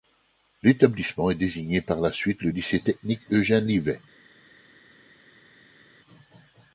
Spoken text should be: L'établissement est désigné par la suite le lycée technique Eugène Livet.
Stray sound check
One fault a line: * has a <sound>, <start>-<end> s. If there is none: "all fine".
all fine